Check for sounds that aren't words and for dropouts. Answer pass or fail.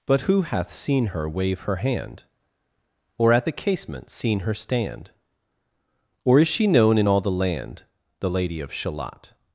pass